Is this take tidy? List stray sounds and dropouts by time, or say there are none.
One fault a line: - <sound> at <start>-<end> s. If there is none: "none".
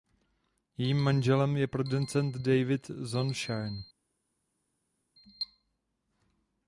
none